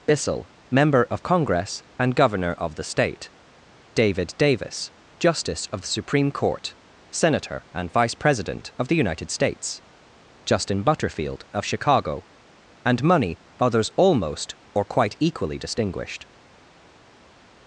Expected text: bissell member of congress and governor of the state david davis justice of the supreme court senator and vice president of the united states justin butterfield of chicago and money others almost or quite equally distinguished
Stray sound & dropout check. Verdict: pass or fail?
pass